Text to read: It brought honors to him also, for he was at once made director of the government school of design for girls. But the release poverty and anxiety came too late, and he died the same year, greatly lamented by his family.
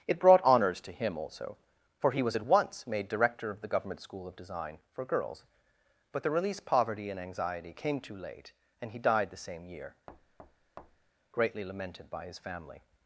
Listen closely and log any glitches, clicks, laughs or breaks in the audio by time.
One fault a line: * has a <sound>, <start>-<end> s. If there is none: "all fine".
* has a thud, 10.1-11.1 s